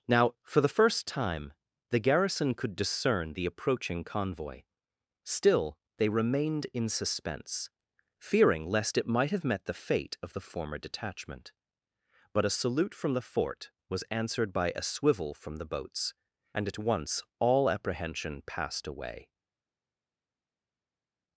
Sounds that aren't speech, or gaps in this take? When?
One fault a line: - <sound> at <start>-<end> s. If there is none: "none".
none